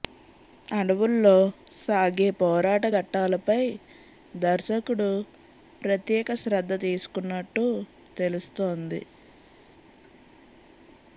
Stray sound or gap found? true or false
false